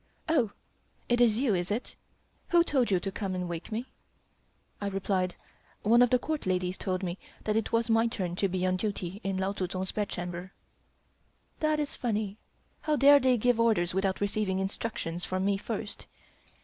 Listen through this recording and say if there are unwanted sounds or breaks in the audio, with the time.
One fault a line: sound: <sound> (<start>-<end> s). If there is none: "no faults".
no faults